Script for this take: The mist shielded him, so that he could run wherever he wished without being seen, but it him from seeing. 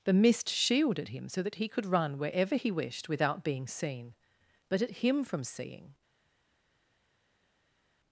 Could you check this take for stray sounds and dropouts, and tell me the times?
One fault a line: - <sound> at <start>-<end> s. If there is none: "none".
none